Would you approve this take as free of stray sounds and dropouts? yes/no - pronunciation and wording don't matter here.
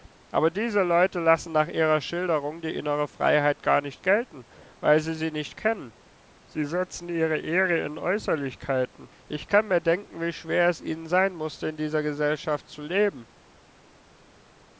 yes